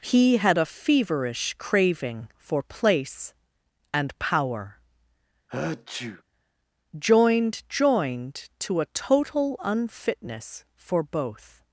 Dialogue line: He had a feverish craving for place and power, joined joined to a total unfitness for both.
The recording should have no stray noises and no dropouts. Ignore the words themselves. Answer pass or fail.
fail